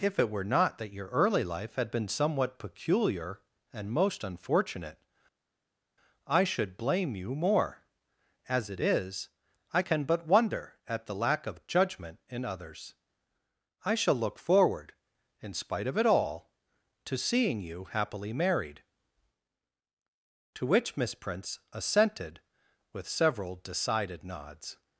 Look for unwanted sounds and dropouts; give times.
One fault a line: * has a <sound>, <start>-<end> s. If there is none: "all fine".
all fine